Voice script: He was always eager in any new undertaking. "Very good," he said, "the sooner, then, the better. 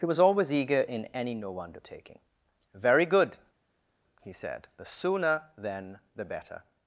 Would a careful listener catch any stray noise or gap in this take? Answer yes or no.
no